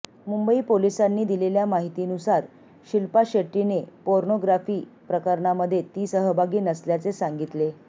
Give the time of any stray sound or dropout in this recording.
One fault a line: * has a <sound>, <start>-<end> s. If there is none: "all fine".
all fine